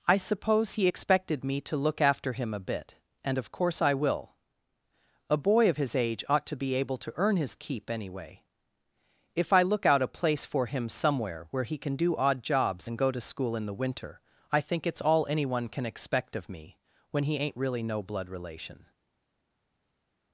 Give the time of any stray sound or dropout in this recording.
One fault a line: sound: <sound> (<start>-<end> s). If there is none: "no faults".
no faults